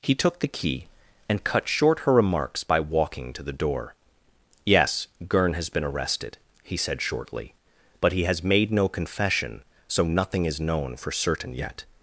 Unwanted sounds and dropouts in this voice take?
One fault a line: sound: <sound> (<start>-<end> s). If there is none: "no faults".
no faults